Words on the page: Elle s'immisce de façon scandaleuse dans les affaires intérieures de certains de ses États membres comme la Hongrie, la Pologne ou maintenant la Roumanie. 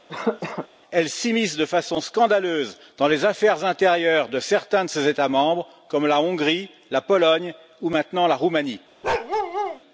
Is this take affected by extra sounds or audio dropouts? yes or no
yes